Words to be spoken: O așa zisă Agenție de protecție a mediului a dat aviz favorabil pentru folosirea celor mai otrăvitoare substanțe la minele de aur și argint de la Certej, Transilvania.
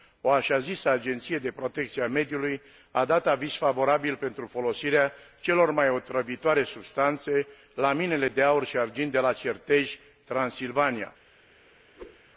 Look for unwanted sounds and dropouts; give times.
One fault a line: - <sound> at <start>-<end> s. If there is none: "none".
- whoosh at 12.0-12.2 s